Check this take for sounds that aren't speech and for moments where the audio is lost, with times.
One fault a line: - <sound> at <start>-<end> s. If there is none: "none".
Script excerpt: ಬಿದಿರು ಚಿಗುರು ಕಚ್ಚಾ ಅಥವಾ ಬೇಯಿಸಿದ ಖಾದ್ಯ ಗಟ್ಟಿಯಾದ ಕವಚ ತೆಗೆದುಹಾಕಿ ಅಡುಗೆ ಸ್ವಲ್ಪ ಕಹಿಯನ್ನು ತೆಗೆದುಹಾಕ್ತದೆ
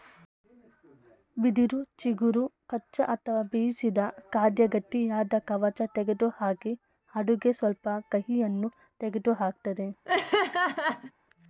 - laugh at 10.0-11.1 s